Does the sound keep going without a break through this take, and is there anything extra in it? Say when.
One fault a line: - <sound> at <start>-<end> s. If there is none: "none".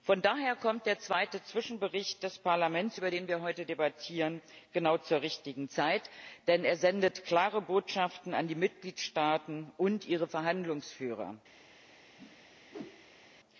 - whoosh at 12.2-13.3 s